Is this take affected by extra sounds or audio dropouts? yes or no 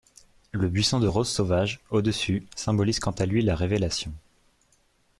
no